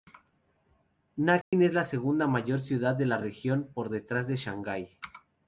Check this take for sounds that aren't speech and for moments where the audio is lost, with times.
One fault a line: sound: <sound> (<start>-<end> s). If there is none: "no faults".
sound: dropout (1.4-1.5 s)